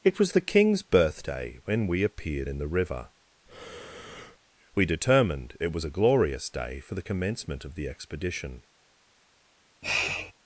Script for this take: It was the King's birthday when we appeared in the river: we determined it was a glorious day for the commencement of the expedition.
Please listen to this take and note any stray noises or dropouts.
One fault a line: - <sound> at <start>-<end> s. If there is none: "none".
- breath at 3.5-4.4 s
- sniff at 9.8-10.3 s